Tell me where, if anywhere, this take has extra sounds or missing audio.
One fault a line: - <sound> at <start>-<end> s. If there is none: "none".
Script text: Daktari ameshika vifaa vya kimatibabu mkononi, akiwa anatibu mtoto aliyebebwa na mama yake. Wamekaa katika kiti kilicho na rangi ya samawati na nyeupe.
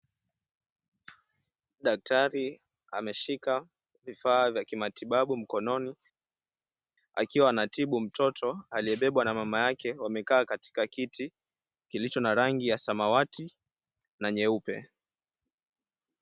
none